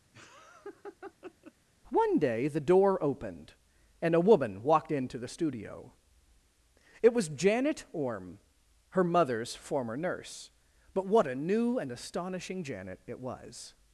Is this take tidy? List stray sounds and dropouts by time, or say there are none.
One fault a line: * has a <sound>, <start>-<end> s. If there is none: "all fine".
* has a laugh, 0.1-1.5 s